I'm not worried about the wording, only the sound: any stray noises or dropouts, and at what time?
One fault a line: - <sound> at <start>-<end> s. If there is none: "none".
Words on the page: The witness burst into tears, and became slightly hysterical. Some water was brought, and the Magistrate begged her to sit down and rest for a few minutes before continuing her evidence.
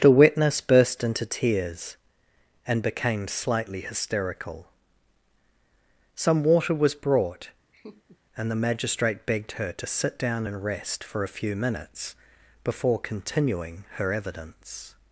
- laugh at 7.7-8.2 s